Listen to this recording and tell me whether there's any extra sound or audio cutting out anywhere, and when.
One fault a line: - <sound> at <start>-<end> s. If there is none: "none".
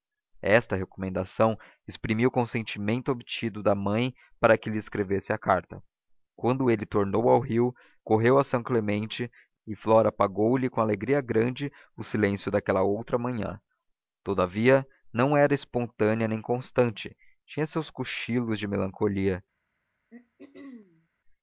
- throat clearing at 20.1-21.1 s